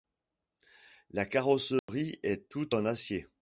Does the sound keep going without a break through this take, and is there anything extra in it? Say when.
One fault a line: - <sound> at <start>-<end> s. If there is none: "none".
- dropout at 1.8-1.9 s